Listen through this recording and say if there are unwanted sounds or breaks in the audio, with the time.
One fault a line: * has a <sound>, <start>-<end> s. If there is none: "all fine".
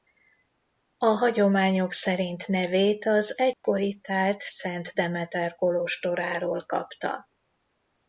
* has a dropout, 3.5-3.6 s